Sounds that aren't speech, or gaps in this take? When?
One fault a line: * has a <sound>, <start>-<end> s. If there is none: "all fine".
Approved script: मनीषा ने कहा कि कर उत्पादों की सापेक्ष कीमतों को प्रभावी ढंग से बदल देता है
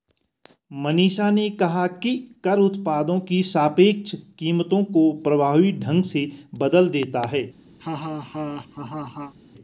* has a laugh, 7.8-9.3 s